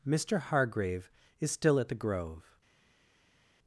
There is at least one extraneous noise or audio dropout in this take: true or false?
false